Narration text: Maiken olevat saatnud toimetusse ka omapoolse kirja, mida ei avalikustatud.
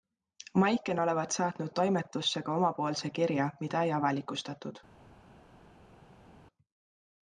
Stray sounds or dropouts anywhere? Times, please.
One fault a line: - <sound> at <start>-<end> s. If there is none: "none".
none